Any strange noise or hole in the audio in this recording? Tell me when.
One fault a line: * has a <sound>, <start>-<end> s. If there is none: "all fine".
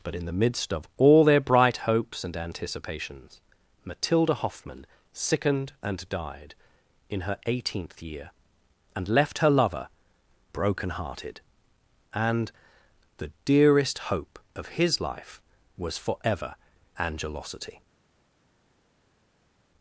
all fine